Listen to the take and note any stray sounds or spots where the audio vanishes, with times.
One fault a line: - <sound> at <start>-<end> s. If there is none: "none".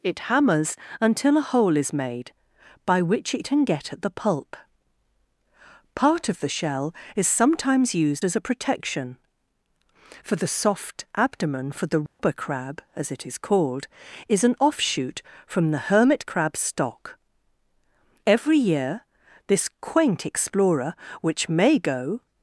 - dropout at 12.1-12.2 s